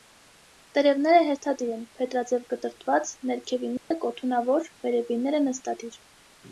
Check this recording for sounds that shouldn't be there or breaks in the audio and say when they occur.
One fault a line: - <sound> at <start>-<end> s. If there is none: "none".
- dropout at 3.8-3.9 s